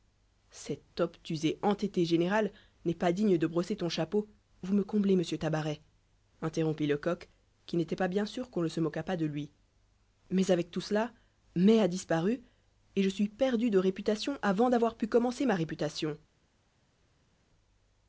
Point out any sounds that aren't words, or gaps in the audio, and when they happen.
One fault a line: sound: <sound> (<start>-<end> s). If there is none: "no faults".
no faults